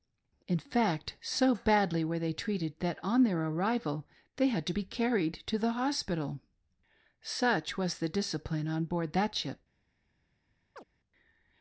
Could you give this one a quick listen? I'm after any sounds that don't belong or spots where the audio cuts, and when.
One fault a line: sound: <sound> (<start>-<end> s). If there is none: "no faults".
sound: chirp (10.8-10.8 s)